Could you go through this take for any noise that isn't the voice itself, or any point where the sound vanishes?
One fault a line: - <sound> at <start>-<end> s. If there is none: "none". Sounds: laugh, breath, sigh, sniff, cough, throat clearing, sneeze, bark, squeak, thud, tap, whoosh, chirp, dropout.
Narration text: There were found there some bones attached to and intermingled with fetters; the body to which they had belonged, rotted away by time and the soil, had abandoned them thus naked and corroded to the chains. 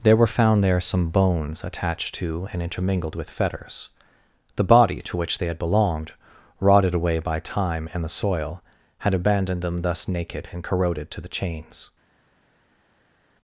none